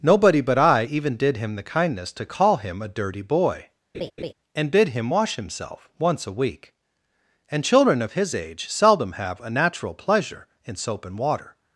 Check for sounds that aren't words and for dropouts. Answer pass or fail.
fail